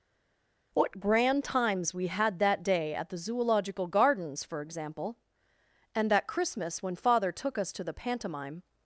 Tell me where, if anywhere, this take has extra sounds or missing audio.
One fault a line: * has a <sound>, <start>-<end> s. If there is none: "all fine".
all fine